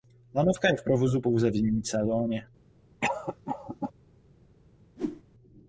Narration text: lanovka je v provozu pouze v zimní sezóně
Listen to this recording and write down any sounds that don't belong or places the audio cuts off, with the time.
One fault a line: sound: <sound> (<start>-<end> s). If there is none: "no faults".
sound: cough (3.0-3.9 s)
sound: whoosh (5.0-5.2 s)